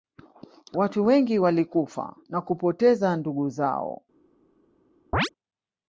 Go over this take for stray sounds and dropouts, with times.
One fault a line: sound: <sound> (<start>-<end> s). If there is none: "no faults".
sound: chirp (5.1-5.3 s)